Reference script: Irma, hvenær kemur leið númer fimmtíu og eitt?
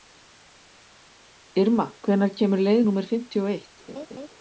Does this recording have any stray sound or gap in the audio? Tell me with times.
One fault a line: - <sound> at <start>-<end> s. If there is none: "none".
- laugh at 3.9-4.3 s